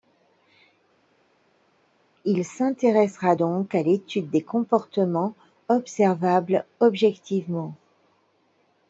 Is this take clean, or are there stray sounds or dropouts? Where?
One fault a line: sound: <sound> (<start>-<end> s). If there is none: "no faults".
no faults